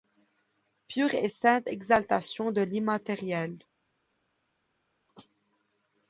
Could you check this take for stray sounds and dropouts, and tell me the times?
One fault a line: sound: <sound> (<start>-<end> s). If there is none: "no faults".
no faults